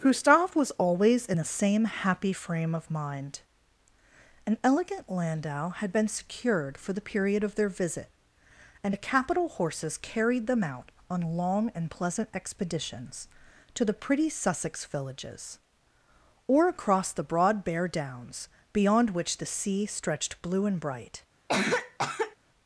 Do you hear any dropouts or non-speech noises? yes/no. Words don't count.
yes